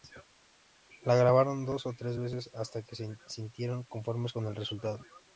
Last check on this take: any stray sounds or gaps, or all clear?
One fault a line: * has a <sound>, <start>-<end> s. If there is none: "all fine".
all fine